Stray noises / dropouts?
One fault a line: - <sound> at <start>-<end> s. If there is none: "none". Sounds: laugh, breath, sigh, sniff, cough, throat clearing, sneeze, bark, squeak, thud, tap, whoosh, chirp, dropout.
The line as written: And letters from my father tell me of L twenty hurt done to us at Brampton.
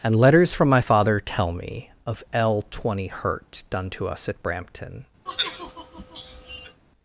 - sigh at 5.3-6.8 s